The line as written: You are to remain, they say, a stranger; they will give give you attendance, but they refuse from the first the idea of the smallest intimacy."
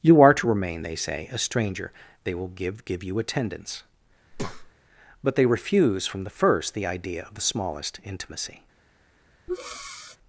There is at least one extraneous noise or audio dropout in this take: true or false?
true